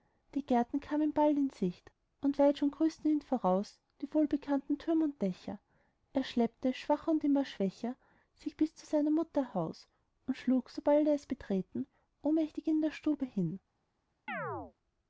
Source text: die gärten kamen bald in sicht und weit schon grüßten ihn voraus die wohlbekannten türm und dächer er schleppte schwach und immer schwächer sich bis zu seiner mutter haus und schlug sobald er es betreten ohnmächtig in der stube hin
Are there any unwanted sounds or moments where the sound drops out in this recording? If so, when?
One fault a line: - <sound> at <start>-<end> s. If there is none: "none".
- chirp at 14.3-14.7 s